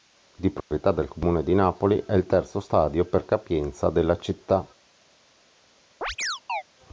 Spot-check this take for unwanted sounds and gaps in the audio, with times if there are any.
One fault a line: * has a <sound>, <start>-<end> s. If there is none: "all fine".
* has a dropout, 0.6-0.7 s
* has a chirp, 6.0-6.6 s